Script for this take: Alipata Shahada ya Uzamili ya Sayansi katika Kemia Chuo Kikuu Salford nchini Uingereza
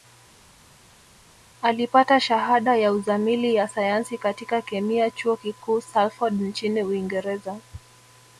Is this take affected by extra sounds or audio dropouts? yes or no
no